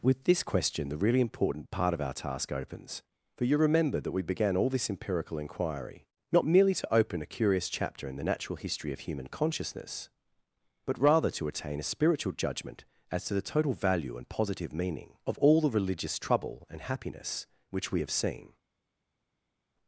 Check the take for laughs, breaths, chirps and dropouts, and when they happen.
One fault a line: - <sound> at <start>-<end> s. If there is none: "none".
none